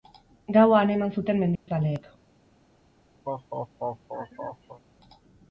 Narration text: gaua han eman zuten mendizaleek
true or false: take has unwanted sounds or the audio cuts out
true